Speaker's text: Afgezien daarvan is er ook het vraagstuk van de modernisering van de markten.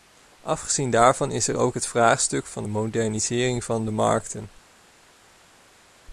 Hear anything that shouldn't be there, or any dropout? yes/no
no